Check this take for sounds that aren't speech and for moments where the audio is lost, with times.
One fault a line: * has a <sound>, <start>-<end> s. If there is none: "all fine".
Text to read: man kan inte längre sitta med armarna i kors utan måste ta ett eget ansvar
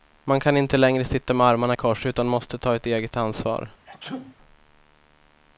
* has a sneeze, 3.8-4.4 s